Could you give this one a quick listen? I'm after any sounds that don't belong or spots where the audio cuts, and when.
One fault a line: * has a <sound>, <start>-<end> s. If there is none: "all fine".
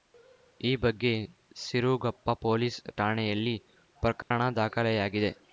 * has a dropout, 4.2-4.3 s